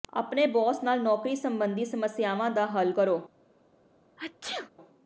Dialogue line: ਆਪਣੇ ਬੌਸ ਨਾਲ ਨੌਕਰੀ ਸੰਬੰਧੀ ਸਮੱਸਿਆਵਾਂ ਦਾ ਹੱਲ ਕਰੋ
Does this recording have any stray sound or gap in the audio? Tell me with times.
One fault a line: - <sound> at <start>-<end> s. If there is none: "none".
- sneeze at 4.2-4.7 s